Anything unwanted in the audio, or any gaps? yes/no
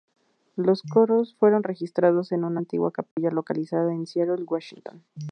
yes